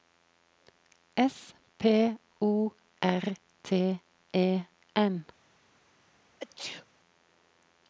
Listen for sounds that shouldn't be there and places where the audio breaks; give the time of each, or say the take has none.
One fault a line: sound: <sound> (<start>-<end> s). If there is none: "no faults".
sound: sneeze (6.4-6.9 s)